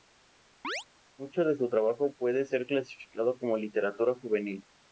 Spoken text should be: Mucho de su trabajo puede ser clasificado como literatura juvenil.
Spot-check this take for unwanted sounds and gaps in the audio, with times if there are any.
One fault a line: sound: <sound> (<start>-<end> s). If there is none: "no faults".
sound: chirp (0.6-0.8 s)